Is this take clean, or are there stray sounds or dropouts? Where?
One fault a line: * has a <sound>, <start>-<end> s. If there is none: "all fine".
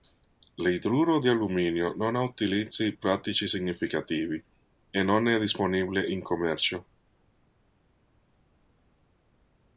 all fine